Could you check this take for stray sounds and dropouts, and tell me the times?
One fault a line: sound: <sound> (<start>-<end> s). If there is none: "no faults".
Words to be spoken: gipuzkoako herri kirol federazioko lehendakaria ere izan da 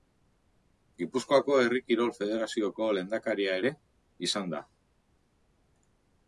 no faults